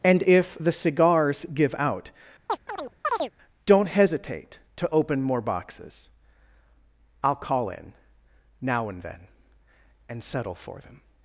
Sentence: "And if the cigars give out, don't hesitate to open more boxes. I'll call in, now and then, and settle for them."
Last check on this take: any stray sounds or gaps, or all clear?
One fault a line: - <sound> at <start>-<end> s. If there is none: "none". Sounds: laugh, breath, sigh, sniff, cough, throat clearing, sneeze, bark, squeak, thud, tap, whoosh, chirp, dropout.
- chirp at 2.5-3.3 s